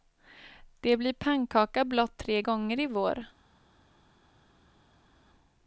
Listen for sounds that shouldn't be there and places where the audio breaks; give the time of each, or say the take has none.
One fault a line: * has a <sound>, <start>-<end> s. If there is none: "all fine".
all fine